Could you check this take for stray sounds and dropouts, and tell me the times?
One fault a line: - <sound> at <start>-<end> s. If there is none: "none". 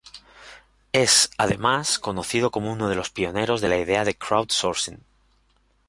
none